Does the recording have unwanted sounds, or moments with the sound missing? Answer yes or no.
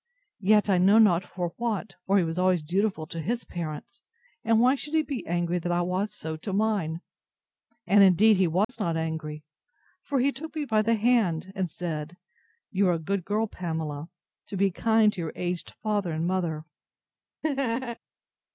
yes